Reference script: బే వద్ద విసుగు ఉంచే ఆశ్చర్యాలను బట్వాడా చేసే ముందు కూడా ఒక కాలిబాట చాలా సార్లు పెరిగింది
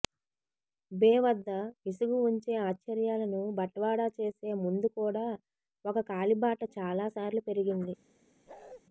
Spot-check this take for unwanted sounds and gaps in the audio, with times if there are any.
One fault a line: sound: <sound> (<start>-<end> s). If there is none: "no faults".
sound: bark (8.5-8.8 s)